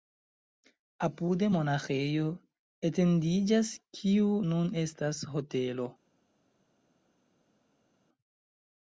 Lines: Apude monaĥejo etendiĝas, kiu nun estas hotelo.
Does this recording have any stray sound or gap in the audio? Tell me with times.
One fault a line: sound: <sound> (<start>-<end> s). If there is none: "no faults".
no faults